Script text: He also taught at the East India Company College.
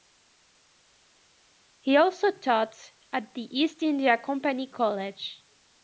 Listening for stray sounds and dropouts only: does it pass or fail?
pass